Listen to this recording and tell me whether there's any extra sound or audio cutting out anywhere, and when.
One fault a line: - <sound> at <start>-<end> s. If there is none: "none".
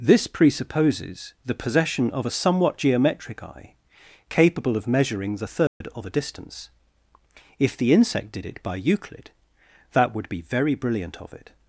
- dropout at 5.7-5.8 s